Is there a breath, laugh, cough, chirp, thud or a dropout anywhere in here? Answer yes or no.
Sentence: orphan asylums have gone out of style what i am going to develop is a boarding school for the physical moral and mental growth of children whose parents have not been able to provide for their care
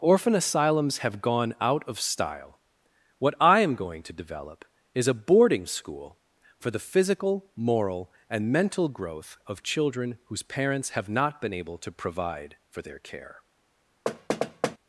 yes